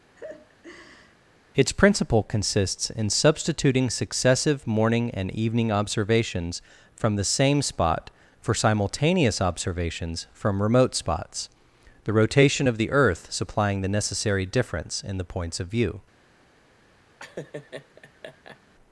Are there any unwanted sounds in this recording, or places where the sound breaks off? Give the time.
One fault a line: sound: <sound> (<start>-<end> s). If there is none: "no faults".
sound: laugh (0.1-1.2 s)
sound: laugh (17.2-18.6 s)